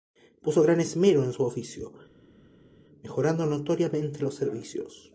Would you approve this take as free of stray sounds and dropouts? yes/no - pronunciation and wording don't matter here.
yes